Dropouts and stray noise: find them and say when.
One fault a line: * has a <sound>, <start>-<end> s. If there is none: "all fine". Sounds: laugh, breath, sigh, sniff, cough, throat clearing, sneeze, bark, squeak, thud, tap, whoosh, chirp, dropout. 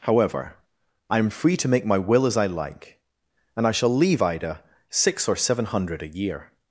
all fine